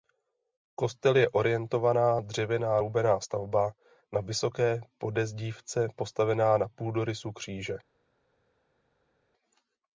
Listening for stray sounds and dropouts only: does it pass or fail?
pass